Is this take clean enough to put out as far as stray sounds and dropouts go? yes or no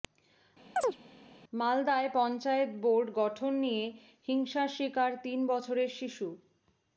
no